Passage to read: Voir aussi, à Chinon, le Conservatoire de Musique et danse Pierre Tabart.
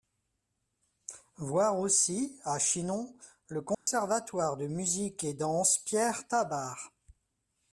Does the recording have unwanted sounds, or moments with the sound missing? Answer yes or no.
yes